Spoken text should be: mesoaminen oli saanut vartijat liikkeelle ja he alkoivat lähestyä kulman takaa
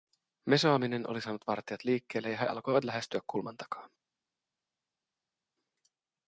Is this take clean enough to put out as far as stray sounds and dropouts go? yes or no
yes